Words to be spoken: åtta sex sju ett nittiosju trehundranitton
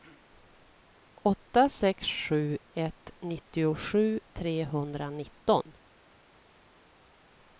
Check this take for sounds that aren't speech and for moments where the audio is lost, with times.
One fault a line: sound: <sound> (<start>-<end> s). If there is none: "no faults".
no faults